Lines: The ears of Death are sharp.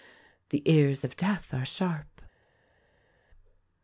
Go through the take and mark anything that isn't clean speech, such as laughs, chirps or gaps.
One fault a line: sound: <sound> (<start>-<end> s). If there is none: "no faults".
no faults